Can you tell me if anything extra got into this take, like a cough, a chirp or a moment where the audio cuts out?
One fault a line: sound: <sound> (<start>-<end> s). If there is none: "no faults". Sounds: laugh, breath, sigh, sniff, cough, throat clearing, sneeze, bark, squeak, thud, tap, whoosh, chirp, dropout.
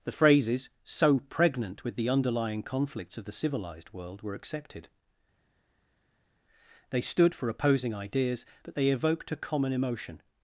no faults